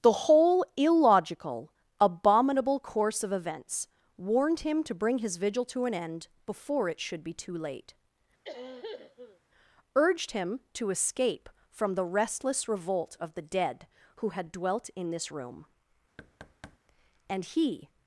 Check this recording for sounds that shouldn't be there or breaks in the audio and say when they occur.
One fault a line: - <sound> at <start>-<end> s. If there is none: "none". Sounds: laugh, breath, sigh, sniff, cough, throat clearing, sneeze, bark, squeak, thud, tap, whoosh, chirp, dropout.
- cough at 8.4-9.4 s
- thud at 16.2-16.8 s